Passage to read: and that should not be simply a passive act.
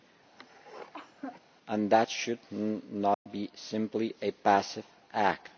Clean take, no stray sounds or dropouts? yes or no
no